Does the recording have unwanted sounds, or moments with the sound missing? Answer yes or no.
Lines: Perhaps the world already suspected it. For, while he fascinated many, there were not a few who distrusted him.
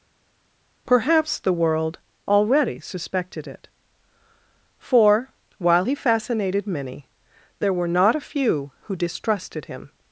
no